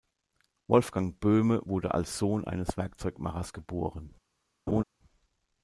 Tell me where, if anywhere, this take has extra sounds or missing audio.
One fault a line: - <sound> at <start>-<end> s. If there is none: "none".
- laugh at 4.7-4.8 s